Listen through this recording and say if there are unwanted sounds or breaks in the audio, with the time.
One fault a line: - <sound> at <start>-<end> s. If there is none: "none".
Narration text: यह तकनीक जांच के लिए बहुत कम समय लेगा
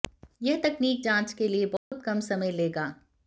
- dropout at 1.8-1.9 s